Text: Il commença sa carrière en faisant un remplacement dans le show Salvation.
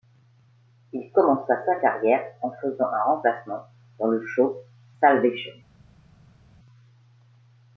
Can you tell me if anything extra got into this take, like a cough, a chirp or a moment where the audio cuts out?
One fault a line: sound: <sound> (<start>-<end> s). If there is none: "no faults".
no faults